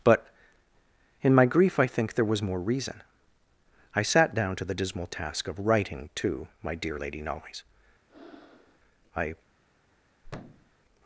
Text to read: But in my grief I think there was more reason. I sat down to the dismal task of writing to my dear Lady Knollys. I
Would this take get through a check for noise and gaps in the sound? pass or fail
fail